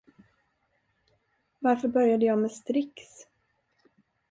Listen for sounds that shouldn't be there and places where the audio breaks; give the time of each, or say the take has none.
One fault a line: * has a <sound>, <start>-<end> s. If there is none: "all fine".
all fine